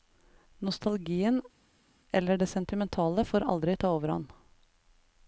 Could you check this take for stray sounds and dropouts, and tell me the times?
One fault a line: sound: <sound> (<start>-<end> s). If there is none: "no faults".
no faults